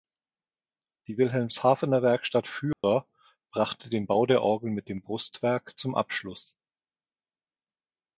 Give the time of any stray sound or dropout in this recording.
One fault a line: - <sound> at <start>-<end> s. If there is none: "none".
- dropout at 2.7-2.8 s